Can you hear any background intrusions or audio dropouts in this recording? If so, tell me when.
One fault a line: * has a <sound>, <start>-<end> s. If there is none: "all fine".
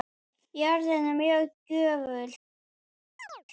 * has a chirp, 3.2-3.4 s